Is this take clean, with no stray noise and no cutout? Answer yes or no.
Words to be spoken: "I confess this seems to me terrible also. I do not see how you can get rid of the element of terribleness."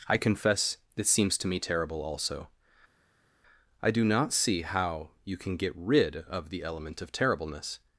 yes